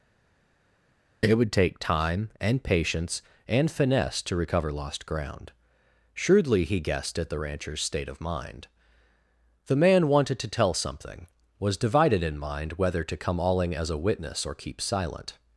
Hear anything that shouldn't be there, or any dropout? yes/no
no